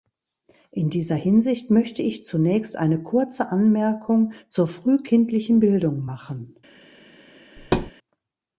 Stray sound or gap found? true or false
true